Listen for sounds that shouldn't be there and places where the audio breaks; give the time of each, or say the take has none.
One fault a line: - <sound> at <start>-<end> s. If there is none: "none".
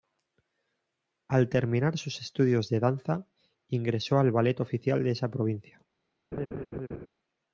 - laugh at 6.3-7.1 s